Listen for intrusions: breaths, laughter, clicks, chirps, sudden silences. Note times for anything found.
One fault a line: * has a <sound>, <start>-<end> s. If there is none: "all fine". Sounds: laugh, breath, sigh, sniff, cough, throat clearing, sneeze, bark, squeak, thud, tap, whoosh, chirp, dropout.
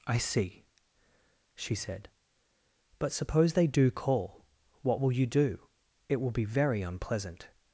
all fine